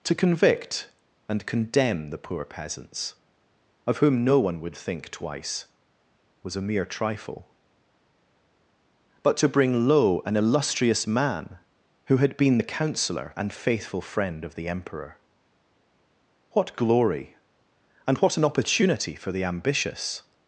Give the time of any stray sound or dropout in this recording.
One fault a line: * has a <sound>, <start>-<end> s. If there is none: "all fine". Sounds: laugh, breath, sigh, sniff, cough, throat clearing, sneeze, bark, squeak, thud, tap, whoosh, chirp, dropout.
all fine